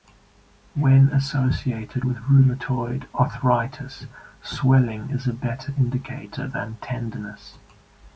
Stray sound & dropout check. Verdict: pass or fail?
pass